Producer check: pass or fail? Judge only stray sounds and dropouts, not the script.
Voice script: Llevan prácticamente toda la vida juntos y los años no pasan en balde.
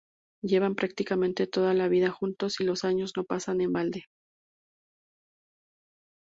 pass